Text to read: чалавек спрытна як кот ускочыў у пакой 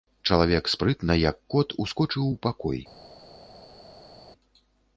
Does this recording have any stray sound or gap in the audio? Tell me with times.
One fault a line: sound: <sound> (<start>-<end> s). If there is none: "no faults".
no faults